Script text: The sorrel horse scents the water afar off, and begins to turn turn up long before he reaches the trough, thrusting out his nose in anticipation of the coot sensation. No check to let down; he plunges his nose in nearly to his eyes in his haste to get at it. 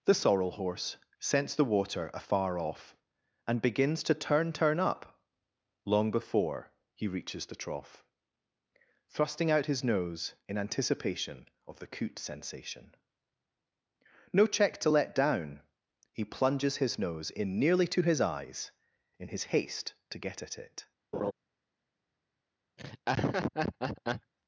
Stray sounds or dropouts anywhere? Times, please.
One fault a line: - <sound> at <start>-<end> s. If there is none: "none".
- laugh at 21.1-21.3 s
- laugh at 22.8-24.3 s